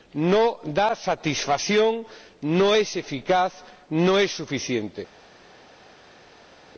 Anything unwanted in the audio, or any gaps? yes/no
no